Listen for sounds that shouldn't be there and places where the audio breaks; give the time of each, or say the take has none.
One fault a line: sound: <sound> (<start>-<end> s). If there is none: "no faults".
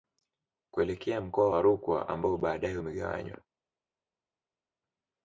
no faults